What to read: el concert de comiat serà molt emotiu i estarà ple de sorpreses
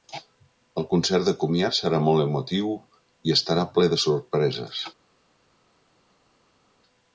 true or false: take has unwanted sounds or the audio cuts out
false